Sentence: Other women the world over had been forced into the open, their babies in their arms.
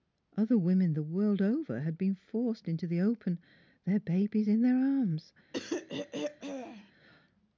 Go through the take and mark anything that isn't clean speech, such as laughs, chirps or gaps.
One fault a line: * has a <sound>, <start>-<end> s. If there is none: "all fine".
* has a throat clearing, 5.5-6.9 s